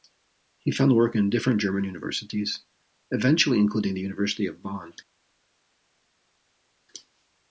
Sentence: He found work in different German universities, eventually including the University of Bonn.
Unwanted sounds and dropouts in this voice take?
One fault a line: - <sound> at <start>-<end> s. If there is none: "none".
none